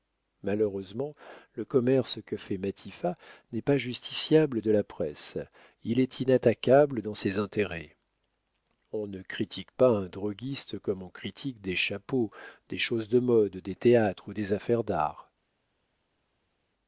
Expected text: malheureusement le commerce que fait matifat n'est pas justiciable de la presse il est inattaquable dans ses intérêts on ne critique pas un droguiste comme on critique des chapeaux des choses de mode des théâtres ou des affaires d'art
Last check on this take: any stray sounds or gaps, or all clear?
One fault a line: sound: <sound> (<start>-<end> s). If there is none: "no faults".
no faults